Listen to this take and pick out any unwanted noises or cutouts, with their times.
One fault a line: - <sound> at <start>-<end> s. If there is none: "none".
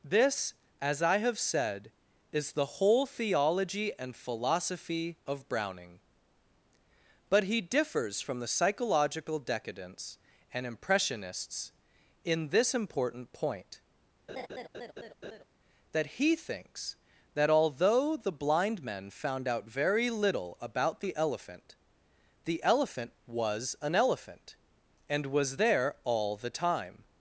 - laugh at 14.3-15.4 s